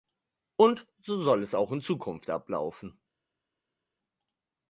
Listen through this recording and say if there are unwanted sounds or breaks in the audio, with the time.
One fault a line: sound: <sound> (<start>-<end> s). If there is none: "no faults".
no faults